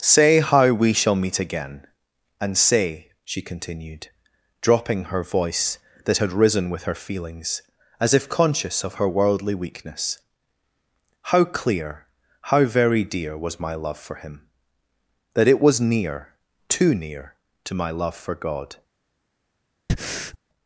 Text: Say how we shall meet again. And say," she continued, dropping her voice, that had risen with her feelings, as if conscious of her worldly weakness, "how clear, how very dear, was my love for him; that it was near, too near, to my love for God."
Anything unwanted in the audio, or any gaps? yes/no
yes